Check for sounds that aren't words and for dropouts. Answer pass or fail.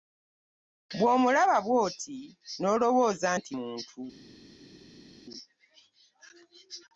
pass